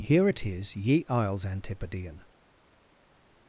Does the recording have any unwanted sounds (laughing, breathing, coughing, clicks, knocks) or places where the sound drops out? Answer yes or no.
no